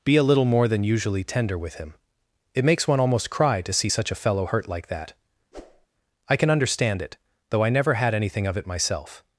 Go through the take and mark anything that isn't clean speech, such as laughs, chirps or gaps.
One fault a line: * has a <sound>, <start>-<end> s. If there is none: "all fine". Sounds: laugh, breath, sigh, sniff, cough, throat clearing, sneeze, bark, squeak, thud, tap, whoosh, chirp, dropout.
* has a whoosh, 5.5-5.9 s